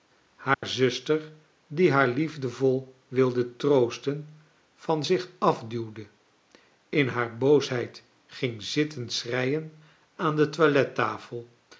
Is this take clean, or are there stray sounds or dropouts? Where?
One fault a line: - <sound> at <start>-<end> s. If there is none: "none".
- dropout at 0.5-0.6 s